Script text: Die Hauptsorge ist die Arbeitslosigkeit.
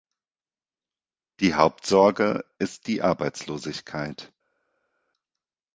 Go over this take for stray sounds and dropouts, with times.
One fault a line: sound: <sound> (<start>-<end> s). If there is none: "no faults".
no faults